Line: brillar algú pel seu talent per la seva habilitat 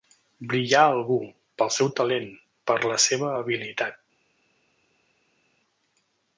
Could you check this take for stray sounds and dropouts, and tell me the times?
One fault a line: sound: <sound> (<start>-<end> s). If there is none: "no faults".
no faults